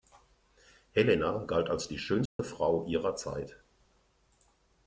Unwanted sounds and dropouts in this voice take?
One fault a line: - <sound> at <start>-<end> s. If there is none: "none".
- dropout at 2.3-2.4 s